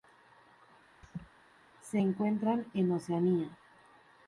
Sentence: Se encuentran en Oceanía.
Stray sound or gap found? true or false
true